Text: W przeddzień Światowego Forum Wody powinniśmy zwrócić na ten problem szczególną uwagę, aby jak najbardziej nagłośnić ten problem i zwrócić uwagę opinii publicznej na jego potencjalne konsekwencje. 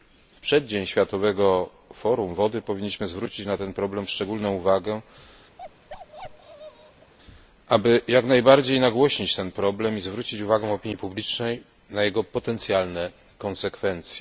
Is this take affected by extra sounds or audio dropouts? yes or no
yes